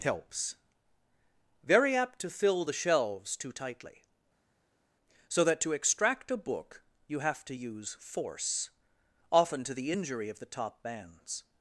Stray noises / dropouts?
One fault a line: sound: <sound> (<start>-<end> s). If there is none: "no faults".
no faults